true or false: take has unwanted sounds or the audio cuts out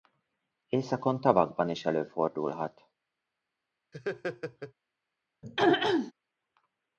true